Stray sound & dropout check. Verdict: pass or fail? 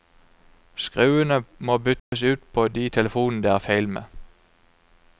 fail